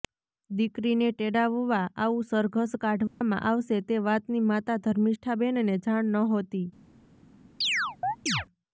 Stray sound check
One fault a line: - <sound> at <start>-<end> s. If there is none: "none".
- dropout at 3.1-3.2 s
- chirp at 7.6-8.5 s